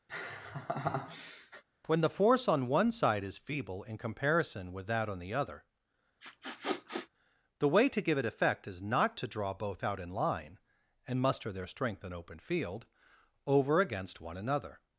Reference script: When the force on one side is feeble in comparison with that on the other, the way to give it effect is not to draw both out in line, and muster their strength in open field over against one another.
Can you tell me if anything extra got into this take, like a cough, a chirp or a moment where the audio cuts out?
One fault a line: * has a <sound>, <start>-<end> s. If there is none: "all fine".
* has a laugh, 0.1-1.6 s
* has a sniff, 6.2-7.1 s